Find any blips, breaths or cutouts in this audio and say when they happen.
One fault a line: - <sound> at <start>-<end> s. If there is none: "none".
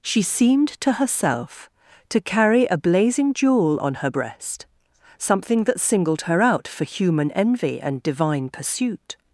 none